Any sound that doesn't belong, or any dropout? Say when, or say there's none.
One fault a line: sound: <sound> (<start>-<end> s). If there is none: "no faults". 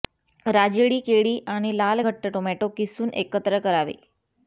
no faults